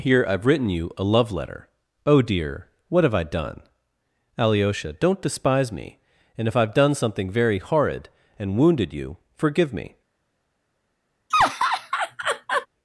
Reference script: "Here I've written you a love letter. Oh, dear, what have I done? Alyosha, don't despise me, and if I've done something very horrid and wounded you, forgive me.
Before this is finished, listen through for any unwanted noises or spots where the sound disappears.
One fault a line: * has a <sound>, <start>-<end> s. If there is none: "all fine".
* has a laugh, 11.3-12.7 s